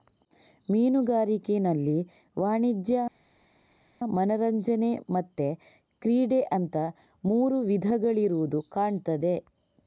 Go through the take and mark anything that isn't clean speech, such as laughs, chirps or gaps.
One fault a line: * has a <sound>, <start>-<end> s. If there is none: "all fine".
all fine